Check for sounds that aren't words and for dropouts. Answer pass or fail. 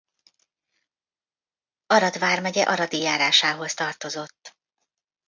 pass